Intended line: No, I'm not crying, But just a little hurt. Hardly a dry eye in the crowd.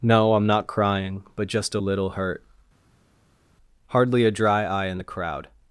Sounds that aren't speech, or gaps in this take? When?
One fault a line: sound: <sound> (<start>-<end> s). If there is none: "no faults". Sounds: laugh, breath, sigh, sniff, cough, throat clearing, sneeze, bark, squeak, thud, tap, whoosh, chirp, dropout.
no faults